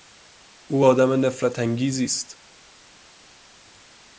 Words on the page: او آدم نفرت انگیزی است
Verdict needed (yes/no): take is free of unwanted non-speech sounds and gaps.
yes